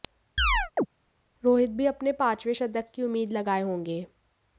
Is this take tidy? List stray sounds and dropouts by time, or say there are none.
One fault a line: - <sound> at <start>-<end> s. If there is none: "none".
- chirp at 0.4-0.9 s